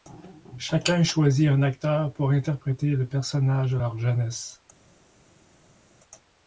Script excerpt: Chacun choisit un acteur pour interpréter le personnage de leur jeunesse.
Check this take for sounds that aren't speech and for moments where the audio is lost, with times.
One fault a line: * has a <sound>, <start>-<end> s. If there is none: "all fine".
all fine